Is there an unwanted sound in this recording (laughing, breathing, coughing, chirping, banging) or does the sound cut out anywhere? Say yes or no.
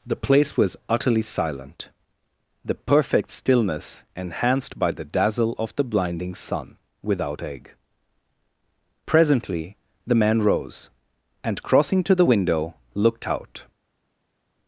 no